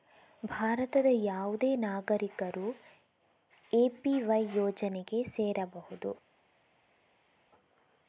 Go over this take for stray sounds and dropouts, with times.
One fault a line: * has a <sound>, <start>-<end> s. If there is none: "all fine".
all fine